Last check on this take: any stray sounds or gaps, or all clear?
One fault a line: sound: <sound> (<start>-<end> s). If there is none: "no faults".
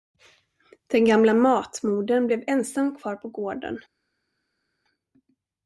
no faults